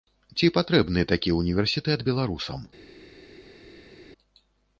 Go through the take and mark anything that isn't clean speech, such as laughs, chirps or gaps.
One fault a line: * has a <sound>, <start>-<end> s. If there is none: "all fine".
all fine